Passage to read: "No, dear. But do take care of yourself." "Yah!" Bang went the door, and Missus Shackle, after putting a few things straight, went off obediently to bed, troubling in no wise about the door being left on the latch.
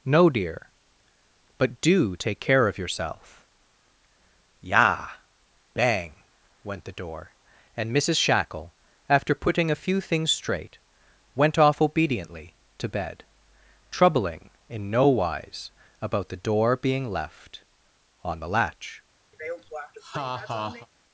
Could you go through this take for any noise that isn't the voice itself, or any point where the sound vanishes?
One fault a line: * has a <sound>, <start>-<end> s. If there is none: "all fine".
* has a laugh, 19.3-20.9 s